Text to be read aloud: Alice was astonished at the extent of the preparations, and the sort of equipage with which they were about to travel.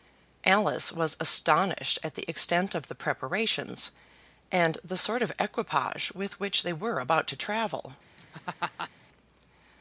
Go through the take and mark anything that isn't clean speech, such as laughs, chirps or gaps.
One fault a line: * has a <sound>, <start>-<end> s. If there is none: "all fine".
* has a laugh, 8.2-8.9 s